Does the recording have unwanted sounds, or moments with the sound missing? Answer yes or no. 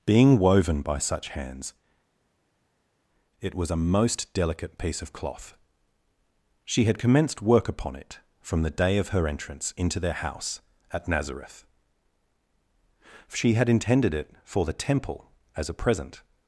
no